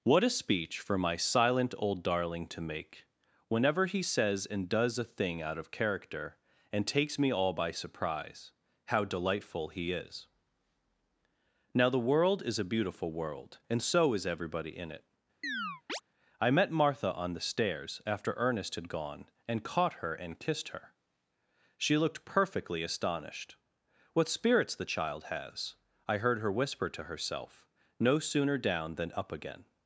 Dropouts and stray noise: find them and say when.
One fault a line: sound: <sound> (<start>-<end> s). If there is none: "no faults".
sound: chirp (15.4-16.0 s)